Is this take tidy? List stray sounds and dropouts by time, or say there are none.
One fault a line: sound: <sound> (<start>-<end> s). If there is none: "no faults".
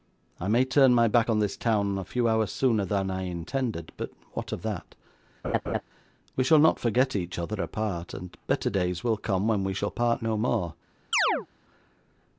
sound: laugh (5.4-5.8 s)
sound: chirp (11.1-11.5 s)